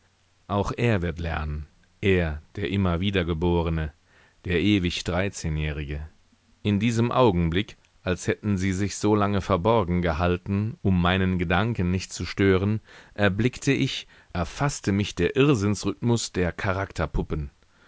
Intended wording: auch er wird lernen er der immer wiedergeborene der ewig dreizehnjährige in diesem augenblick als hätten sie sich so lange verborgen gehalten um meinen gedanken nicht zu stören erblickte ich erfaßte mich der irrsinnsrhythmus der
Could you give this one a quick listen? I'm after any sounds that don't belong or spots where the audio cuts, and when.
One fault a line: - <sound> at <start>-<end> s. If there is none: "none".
none